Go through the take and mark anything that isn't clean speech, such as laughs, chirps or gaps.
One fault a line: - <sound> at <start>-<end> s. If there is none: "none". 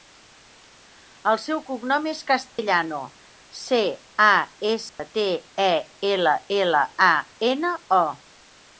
- dropout at 2.5-2.6 s
- dropout at 4.9-5.0 s